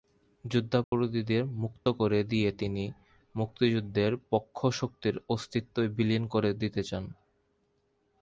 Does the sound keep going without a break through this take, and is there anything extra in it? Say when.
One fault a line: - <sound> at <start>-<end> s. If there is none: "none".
- dropout at 0.8-0.9 s